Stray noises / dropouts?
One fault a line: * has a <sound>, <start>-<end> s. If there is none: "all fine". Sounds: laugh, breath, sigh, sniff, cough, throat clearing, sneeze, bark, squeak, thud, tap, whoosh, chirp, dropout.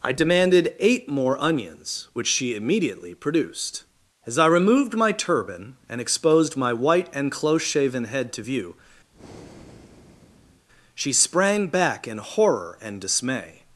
* has a breath, 9.1-10.7 s